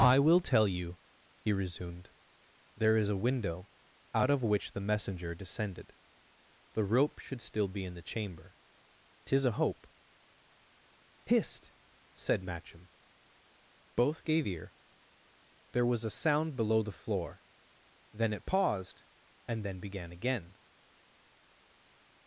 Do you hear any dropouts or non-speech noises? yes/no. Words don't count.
no